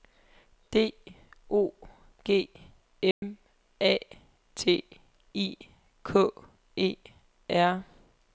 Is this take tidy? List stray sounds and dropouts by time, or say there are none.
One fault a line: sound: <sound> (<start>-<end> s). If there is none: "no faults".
sound: dropout (3.1-3.2 s)